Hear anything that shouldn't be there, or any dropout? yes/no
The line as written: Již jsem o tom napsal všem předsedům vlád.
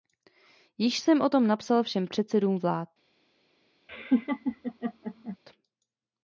yes